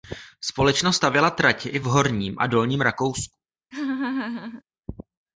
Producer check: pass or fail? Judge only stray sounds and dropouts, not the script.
fail